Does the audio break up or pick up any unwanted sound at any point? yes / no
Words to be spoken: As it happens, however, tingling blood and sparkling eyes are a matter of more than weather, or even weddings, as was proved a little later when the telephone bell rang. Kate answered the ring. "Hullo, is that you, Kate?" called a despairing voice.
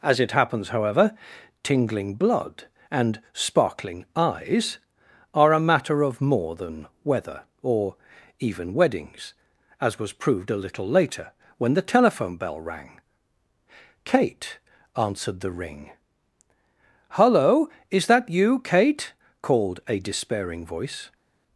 no